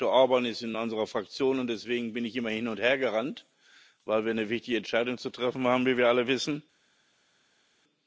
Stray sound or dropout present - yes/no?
no